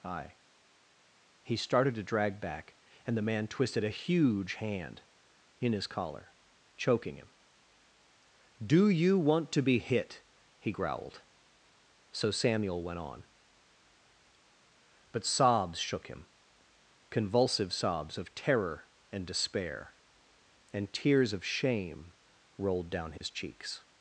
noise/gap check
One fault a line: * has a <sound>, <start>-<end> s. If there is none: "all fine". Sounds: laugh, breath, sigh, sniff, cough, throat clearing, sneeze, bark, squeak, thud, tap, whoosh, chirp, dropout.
* has a dropout, 23.2-23.2 s